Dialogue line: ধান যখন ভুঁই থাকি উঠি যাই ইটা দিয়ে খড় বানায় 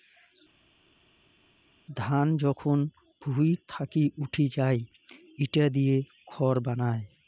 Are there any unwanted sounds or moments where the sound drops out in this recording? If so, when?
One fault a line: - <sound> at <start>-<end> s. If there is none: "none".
none